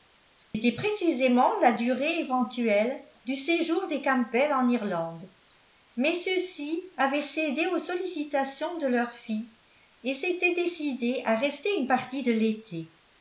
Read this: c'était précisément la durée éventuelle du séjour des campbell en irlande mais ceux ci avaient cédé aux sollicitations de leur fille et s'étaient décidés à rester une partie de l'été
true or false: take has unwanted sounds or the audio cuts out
true